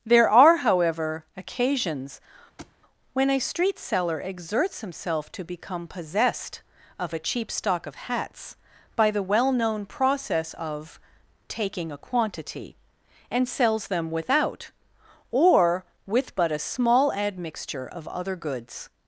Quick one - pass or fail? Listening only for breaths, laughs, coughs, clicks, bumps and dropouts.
fail